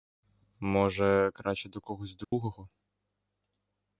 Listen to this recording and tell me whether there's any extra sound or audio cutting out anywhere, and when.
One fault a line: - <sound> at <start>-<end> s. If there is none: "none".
- dropout at 2.2-2.3 s